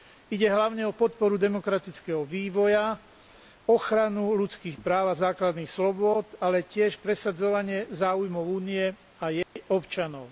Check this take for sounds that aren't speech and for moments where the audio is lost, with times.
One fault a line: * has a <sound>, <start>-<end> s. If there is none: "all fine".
* has a dropout, 9.4-9.6 s